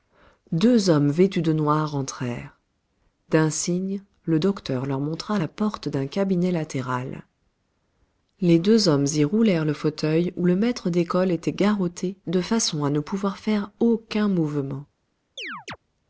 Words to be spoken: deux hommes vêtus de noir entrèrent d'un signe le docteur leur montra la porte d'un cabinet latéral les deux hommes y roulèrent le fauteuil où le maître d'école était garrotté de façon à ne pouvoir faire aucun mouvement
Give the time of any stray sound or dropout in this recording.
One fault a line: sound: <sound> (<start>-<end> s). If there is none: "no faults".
sound: chirp (15.4-15.8 s)